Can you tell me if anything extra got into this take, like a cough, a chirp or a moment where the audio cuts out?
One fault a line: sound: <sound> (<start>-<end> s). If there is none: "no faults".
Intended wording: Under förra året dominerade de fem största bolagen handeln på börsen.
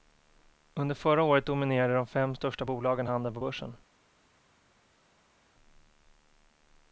no faults